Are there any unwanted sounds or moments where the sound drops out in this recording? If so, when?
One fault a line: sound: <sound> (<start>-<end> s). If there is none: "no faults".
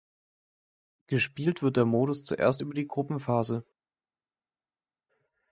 no faults